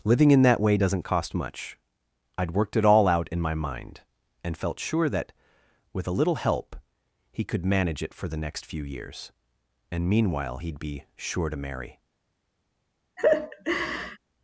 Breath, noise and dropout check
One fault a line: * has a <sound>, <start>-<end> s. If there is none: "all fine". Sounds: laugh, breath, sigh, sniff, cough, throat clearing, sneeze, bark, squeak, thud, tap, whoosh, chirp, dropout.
* has a laugh, 13.2-14.2 s